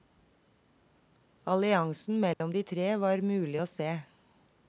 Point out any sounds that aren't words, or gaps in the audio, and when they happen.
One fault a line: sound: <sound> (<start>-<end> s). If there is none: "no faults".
sound: dropout (2.3-2.4 s)